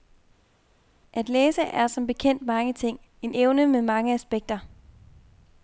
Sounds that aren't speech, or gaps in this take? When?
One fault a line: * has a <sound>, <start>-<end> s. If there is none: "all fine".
all fine